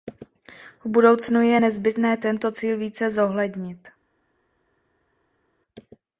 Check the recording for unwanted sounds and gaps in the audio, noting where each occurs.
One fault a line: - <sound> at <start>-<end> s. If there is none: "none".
none